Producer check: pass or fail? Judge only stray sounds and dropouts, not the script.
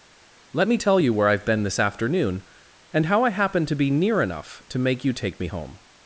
pass